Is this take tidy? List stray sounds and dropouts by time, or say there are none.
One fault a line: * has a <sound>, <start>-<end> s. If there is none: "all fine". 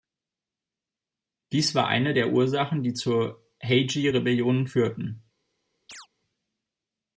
* has a chirp, 5.9-6.1 s